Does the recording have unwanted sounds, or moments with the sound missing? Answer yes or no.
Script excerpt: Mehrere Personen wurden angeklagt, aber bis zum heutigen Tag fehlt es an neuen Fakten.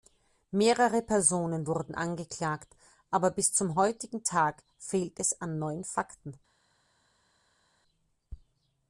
no